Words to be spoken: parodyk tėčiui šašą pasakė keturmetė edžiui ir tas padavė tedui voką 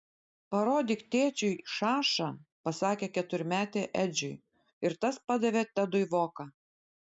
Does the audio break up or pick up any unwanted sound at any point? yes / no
no